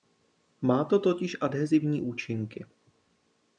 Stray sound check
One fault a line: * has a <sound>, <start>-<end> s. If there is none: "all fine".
all fine